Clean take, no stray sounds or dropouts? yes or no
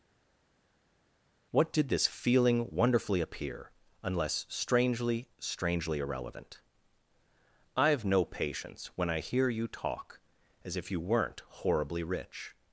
yes